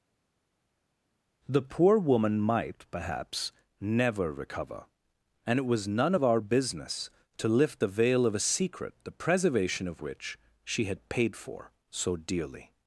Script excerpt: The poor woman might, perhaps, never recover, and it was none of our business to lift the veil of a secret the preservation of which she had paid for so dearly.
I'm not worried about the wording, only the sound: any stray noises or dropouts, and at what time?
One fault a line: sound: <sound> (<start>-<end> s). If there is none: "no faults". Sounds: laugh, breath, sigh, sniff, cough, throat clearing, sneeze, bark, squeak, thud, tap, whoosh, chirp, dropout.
no faults